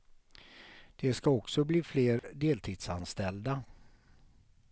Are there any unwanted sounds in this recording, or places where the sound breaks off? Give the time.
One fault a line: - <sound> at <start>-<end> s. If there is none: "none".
- dropout at 2.2-2.2 s